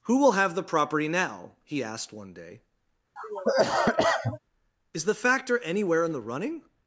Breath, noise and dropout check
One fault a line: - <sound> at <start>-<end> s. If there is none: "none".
- cough at 3.2-4.4 s